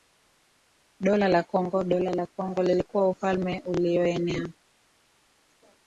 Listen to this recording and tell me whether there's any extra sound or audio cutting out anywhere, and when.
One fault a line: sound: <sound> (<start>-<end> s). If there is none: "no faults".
no faults